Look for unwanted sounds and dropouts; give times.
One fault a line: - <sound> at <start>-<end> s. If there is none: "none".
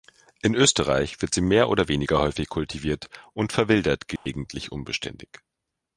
- dropout at 4.2-4.3 s